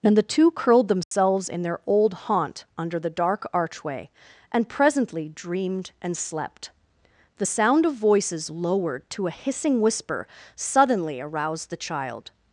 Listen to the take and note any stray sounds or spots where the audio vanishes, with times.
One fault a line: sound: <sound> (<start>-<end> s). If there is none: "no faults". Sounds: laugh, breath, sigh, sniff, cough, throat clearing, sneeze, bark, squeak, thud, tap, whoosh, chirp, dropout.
sound: dropout (1.0-1.1 s)